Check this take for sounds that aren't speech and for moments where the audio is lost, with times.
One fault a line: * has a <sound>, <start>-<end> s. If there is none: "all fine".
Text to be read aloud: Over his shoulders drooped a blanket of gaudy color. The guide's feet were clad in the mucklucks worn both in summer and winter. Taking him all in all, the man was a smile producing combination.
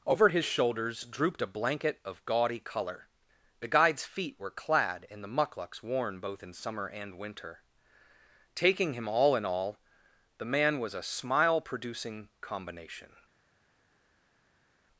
all fine